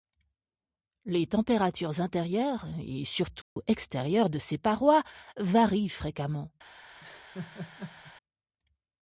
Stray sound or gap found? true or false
true